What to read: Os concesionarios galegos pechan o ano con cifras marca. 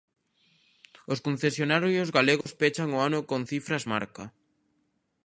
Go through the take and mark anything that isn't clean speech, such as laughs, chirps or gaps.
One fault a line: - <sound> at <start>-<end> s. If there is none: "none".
- dropout at 2.4-2.5 s